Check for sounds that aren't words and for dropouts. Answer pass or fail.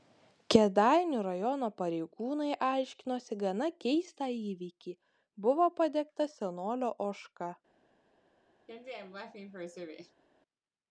fail